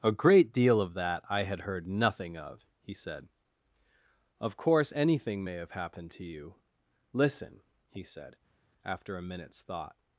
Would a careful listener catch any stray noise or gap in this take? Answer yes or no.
no